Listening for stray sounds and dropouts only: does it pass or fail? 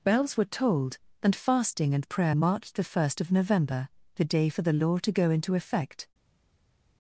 pass